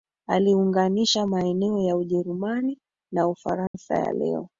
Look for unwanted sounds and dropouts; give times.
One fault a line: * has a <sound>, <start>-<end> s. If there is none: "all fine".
* has a dropout, 3.7-3.7 s